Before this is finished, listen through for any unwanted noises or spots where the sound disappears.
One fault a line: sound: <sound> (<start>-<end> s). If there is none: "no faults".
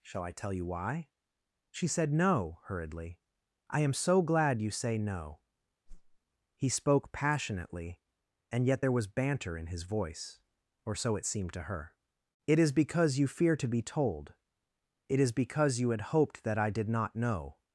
sound: whoosh (5.9-6.2 s)